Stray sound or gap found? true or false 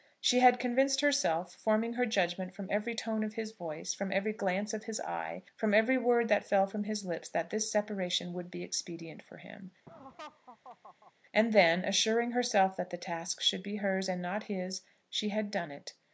true